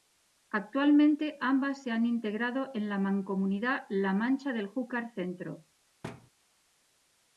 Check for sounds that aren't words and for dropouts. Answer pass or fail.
fail